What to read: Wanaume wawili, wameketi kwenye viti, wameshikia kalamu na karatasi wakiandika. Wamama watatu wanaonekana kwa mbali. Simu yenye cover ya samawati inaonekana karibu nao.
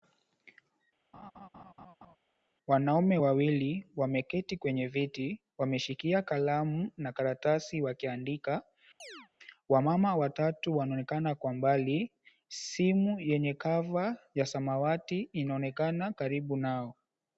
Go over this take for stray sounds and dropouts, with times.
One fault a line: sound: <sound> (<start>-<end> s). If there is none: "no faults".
sound: laugh (1.1-2.2 s)
sound: chirp (9.0-9.3 s)